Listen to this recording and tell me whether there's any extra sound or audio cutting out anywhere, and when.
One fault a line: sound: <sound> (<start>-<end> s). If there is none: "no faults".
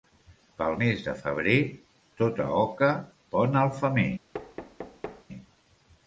sound: thud (4.3-5.2 s)